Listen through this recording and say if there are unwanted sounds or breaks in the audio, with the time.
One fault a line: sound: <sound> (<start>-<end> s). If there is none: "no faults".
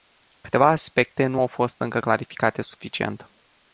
no faults